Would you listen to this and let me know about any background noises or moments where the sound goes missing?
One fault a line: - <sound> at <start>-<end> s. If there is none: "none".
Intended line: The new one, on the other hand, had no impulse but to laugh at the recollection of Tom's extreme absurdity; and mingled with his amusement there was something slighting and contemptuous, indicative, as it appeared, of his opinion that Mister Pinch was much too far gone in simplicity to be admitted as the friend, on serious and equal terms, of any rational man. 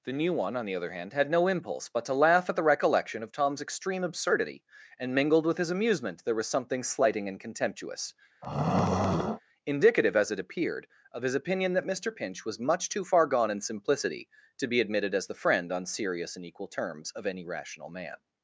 - throat clearing at 8.4-9.4 s